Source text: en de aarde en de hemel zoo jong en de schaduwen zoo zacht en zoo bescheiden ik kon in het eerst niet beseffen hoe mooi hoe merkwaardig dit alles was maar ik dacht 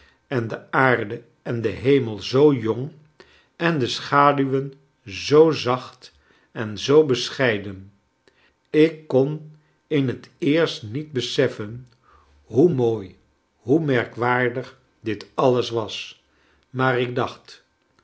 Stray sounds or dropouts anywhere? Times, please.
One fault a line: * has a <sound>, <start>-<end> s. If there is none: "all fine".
all fine